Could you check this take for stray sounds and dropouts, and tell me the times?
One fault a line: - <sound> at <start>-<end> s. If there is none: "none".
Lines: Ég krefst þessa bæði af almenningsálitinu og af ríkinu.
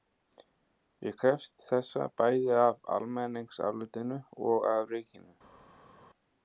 none